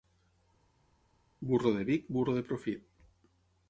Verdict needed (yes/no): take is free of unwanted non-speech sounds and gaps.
yes